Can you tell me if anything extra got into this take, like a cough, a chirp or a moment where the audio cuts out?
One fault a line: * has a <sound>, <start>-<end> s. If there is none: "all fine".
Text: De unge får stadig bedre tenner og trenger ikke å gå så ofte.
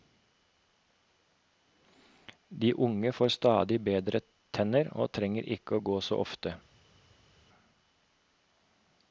all fine